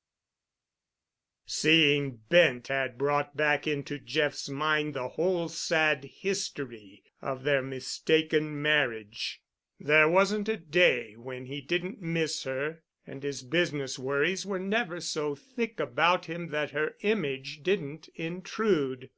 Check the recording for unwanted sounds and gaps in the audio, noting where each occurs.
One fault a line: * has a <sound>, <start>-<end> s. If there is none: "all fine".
all fine